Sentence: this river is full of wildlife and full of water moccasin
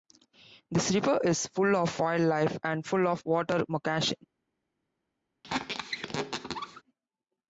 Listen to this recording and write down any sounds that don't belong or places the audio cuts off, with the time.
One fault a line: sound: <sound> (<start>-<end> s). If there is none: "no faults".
sound: squeak (5.4-6.8 s)